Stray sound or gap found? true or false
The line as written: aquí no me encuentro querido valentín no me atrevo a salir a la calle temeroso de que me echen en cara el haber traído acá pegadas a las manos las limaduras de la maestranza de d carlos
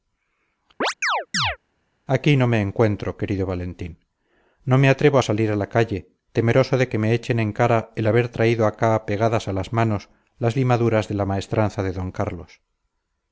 true